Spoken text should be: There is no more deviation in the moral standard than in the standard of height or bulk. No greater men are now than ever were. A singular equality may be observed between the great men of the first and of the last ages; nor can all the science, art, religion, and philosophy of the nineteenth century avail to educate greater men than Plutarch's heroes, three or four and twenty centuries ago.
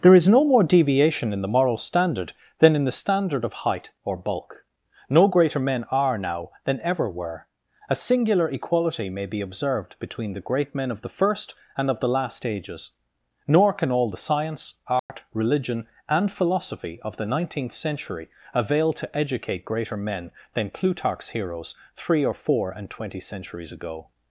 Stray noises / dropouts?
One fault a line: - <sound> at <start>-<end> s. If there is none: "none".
- dropout at 15.0-15.1 s